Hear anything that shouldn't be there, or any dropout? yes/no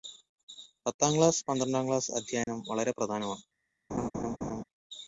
yes